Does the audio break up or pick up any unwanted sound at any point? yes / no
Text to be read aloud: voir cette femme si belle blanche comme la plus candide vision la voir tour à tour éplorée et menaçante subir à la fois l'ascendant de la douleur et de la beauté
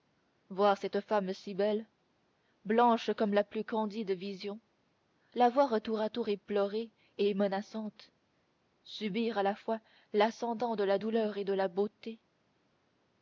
no